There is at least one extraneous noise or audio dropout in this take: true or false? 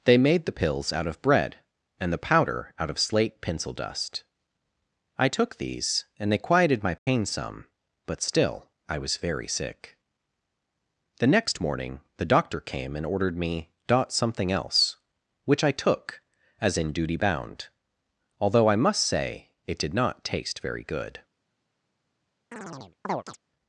true